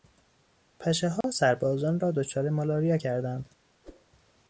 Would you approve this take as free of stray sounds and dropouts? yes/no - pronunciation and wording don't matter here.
no